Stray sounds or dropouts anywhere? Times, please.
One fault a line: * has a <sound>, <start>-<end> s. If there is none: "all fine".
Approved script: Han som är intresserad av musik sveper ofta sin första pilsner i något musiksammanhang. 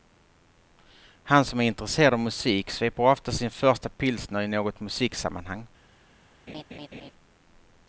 * has a laugh, 6.5-7.1 s